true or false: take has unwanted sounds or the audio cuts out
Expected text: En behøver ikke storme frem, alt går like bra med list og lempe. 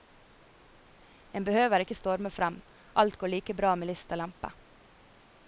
false